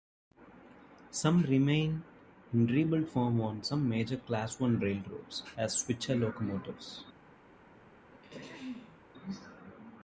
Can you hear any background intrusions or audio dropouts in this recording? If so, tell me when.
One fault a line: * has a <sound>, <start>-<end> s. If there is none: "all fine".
* has a throat clearing, 8.1-9.0 s